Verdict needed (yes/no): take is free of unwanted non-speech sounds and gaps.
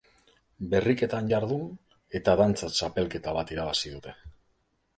yes